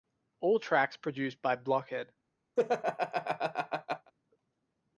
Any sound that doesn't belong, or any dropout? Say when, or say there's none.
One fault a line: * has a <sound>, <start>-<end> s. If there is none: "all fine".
* has a laugh, 2.6-4.1 s